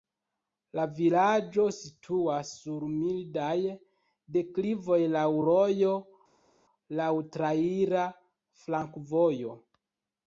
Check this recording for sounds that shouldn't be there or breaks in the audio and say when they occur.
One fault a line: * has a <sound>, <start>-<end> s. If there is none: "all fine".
all fine